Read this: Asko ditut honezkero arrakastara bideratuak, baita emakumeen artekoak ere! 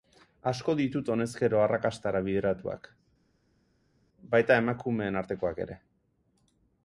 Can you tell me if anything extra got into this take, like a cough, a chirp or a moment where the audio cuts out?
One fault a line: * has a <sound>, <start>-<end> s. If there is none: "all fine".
all fine